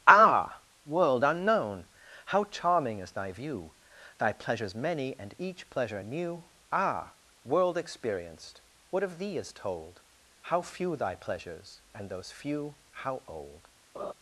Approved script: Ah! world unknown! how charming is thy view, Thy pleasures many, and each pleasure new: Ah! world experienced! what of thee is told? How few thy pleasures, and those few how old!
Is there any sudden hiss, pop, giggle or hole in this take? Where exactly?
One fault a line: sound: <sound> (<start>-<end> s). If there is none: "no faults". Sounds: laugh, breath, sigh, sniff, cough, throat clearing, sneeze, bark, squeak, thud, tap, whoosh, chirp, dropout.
sound: laugh (13.9-14.1 s)